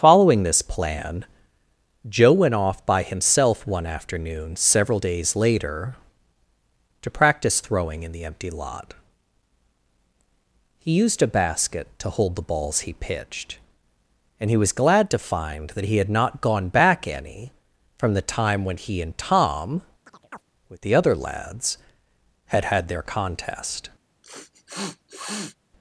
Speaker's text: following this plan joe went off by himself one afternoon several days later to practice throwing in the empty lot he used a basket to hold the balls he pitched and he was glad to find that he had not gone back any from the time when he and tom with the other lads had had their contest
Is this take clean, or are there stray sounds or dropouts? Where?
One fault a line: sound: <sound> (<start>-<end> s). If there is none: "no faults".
sound: chirp (20.1-20.4 s)
sound: sniff (24.2-25.6 s)